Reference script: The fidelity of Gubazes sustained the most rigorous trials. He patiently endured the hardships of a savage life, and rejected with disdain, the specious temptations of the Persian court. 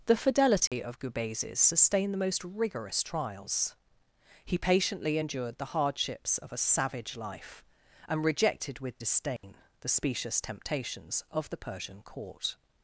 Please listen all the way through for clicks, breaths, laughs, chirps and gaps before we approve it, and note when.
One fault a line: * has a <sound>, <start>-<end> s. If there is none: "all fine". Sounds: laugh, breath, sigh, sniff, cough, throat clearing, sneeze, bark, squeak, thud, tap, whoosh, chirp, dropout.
* has a dropout, 0.7-0.7 s
* has a dropout, 9.4-9.4 s